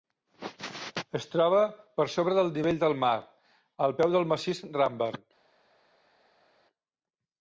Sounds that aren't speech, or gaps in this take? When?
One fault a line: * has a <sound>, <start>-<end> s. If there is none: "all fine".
all fine